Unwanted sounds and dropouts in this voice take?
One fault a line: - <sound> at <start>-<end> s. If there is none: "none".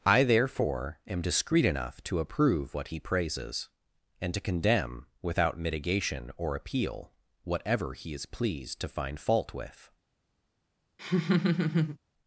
- laugh at 11.0-12.0 s